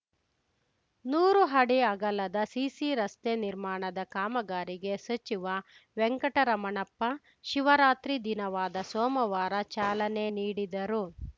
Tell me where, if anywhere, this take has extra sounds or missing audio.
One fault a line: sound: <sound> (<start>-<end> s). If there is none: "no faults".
no faults